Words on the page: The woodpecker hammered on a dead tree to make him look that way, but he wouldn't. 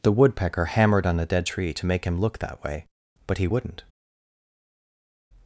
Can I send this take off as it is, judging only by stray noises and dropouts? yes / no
yes